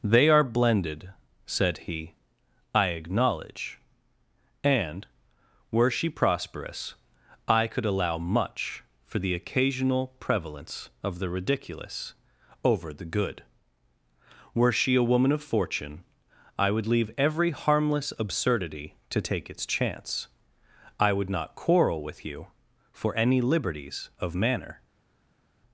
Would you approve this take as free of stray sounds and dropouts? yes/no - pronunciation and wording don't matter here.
yes